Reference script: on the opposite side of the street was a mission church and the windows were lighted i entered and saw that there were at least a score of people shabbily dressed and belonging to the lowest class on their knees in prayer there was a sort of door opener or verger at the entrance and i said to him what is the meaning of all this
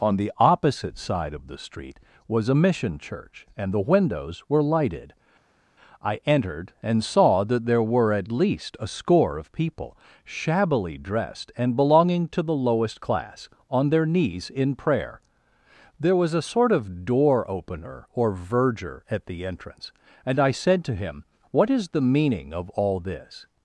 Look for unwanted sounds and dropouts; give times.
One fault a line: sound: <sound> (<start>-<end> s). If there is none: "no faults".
no faults